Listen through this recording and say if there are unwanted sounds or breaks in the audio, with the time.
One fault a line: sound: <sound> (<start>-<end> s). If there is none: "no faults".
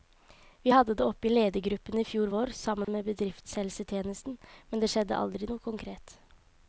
sound: dropout (2.8-2.9 s)